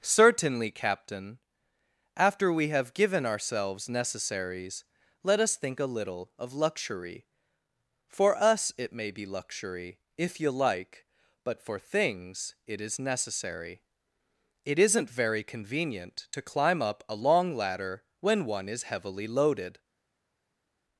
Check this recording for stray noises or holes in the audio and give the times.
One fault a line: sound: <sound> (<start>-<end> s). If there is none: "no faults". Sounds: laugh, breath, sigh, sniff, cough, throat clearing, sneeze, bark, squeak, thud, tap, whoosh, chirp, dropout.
no faults